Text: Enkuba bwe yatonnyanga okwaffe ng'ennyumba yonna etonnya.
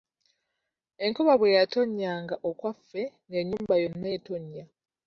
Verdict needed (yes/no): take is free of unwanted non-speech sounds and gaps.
yes